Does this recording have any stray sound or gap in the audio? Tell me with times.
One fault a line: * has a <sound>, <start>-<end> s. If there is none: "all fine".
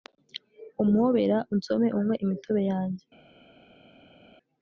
all fine